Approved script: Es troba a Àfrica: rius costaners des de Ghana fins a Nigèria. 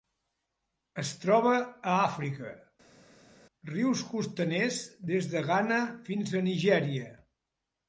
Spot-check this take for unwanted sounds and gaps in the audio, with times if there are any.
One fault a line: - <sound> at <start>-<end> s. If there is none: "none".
none